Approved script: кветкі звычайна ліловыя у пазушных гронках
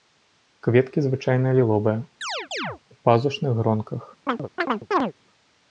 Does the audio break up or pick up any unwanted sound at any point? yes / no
yes